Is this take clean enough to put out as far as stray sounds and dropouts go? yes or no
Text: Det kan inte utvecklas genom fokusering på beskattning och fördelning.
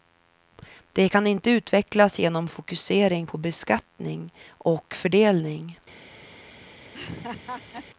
no